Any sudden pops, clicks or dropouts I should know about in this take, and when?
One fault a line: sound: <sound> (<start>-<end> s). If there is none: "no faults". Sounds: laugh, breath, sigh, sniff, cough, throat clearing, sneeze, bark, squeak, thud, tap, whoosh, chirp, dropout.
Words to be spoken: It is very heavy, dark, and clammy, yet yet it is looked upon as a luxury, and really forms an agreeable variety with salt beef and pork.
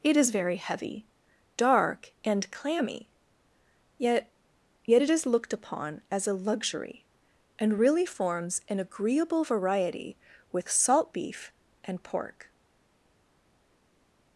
no faults